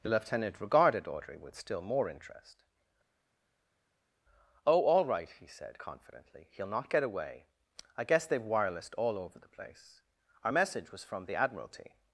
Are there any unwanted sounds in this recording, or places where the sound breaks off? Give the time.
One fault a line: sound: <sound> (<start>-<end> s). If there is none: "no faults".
no faults